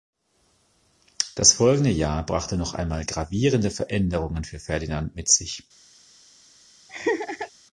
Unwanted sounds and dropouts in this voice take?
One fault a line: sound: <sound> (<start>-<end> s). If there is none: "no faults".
sound: laugh (6.9-7.5 s)